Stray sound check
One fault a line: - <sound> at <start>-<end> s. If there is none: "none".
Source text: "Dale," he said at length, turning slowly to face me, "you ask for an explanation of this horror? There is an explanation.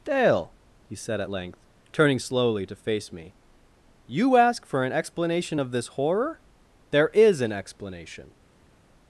none